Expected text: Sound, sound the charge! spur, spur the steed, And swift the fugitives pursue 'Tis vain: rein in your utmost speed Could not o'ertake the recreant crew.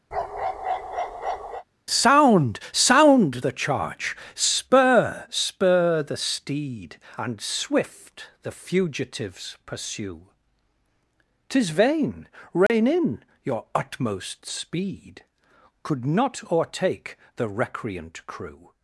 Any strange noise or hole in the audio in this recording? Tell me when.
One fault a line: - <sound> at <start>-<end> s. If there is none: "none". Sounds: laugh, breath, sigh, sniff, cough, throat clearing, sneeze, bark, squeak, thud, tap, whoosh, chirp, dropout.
- bark at 0.1-1.6 s
- dropout at 12.7-12.7 s